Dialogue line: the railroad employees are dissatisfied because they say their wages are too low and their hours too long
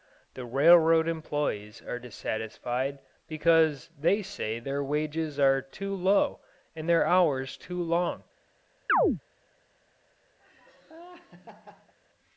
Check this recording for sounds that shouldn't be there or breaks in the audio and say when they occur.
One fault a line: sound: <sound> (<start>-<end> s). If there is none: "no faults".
sound: chirp (8.9-9.2 s)
sound: laugh (10.4-11.9 s)